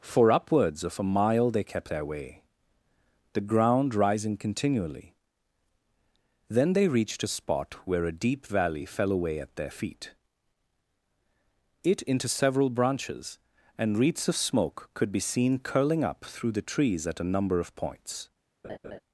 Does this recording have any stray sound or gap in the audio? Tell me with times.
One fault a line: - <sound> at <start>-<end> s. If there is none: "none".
- laugh at 18.6-19.0 s